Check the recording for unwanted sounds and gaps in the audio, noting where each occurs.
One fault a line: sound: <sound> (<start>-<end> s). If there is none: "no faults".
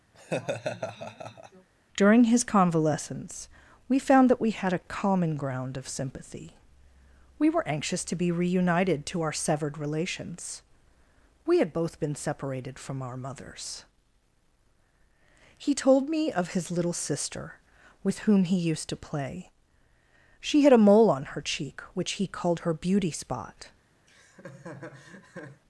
sound: laugh (0.1-1.7 s)
sound: laugh (24.1-25.6 s)